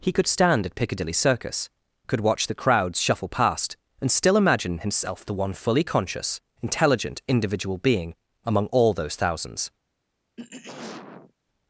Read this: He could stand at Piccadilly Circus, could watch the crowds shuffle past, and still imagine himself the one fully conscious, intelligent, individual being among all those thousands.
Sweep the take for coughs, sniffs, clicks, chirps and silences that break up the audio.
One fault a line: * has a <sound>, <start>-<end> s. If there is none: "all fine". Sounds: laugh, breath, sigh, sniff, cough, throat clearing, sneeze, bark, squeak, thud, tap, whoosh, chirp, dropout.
* has a throat clearing, 10.4-11.3 s